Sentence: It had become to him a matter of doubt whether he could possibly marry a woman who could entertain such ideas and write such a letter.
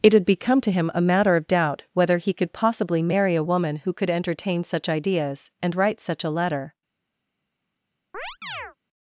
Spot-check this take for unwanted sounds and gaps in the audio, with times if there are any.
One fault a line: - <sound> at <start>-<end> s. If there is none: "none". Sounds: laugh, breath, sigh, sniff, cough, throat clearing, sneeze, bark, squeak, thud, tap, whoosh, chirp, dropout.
- chirp at 8.1-8.8 s